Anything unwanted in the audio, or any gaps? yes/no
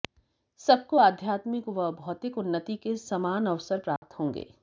yes